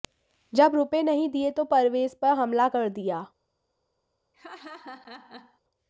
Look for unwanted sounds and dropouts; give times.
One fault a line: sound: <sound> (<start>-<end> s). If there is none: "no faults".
sound: laugh (4.3-5.6 s)